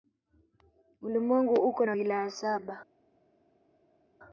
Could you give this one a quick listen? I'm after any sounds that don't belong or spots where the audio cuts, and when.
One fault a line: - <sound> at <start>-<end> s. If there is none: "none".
none